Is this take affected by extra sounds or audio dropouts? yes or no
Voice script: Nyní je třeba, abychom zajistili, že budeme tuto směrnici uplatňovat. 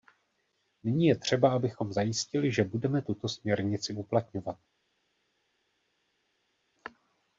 no